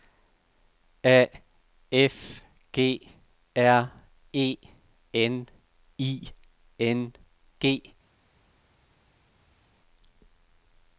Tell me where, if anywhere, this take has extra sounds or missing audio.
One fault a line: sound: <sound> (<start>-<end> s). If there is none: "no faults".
no faults